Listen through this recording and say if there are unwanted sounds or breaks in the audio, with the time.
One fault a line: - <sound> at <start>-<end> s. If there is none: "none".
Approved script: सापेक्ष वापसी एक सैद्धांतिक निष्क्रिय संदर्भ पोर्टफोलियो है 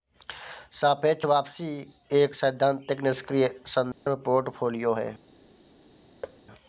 - dropout at 3.9-4.1 s
- thud at 6.2-6.4 s